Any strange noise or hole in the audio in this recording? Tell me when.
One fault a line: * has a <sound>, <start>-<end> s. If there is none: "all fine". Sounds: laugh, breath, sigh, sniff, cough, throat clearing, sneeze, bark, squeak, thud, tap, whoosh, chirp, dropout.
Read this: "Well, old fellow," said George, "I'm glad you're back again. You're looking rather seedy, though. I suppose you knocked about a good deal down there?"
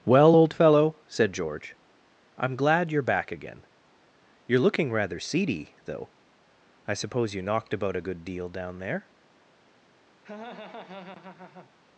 * has a laugh, 10.2-11.7 s